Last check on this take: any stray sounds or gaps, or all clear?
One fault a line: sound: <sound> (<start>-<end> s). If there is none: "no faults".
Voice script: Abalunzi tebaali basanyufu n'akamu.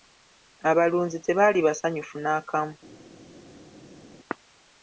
no faults